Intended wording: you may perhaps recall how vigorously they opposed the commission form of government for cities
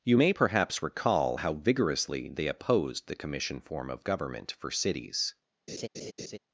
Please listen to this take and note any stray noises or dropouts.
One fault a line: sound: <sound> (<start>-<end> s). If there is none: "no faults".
sound: laugh (5.7-6.4 s)